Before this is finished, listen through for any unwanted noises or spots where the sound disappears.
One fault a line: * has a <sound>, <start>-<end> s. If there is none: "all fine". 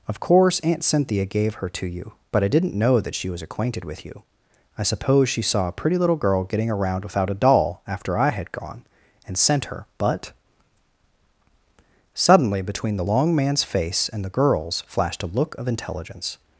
all fine